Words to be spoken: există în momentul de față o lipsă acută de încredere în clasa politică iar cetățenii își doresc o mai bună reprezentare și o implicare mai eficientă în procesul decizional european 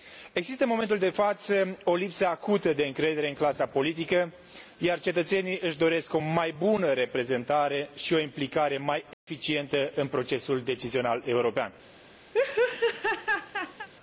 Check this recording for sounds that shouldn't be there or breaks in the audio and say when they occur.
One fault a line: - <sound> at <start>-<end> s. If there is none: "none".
- dropout at 9.1-9.3 s
- laugh at 12.3-13.9 s